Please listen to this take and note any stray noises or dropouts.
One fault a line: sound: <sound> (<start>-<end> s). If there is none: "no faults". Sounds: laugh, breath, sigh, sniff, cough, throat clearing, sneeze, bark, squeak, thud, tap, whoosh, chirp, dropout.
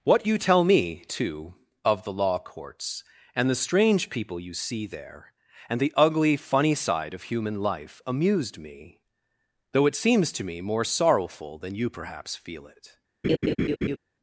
sound: laugh (13.2-14.0 s)